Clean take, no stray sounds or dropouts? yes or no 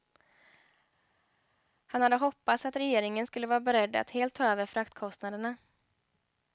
yes